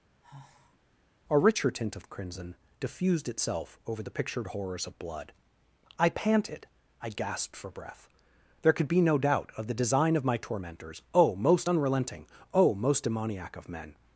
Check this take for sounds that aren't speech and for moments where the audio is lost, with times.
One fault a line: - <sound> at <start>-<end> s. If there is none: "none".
- sigh at 0.2-0.8 s